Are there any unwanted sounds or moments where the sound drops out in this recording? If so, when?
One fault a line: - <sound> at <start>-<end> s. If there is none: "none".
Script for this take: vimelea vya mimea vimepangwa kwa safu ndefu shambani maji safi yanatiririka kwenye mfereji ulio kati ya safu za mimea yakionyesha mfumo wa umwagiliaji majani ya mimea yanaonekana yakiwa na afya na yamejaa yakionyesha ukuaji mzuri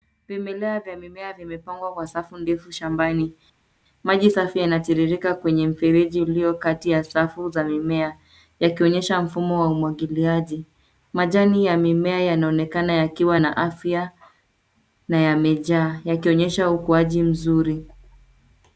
none